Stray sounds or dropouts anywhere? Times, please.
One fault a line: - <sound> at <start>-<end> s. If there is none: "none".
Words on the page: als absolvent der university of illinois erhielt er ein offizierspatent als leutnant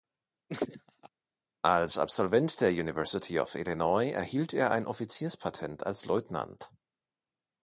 - laugh at 0.5-1.1 s